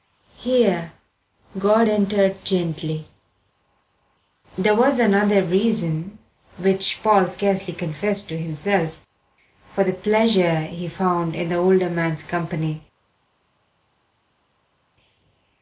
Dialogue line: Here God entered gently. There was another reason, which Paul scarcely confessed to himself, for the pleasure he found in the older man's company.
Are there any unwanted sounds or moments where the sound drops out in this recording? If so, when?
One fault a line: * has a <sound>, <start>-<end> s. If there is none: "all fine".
all fine